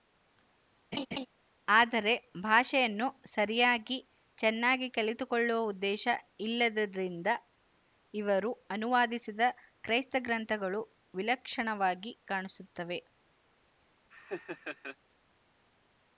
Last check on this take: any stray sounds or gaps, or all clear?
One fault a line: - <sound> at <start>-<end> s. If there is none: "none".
- laugh at 0.9-1.3 s
- laugh at 14.1-15.0 s